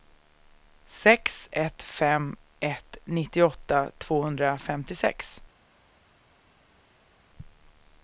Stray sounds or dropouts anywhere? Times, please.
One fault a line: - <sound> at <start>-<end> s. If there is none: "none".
none